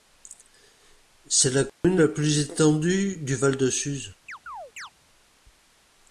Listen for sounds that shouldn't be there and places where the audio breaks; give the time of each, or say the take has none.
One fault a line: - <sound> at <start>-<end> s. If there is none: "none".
- dropout at 1.7-1.8 s
- chirp at 4.3-4.9 s